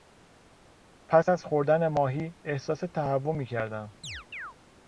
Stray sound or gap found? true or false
true